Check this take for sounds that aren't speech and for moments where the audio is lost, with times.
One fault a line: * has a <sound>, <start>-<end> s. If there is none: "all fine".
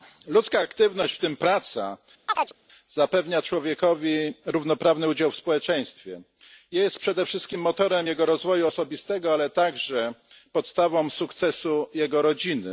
* has a chirp, 2.3-2.5 s